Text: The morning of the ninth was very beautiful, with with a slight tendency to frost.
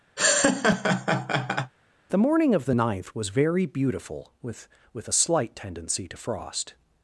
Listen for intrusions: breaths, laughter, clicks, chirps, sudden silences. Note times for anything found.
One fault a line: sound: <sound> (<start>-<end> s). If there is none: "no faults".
sound: laugh (0.2-1.7 s)